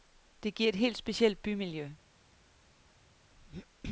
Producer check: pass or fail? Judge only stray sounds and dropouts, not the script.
pass